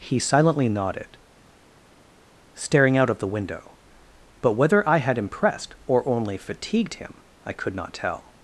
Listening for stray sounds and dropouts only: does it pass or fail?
pass